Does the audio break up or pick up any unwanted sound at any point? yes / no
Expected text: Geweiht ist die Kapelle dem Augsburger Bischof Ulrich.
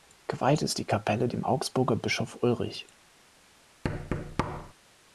yes